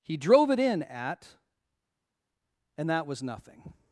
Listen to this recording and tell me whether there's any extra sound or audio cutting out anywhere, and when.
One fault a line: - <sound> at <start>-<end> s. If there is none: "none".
none